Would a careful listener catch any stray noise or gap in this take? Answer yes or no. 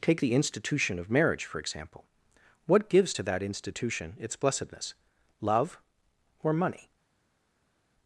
no